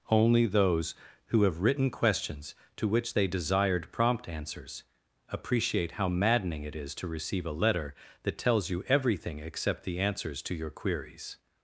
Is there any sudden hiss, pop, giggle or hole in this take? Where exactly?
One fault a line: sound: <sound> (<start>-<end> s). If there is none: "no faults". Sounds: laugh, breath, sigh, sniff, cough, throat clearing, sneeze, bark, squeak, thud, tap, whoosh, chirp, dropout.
no faults